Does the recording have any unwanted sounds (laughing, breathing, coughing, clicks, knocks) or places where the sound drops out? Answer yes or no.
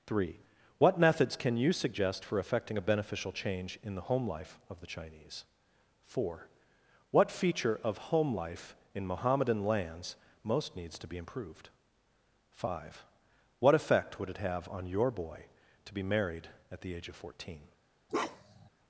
yes